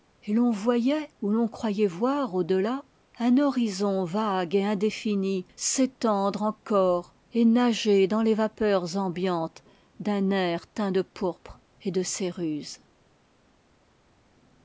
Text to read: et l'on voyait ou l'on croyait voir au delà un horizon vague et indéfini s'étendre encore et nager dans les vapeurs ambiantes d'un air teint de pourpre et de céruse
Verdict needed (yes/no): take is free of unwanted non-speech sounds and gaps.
yes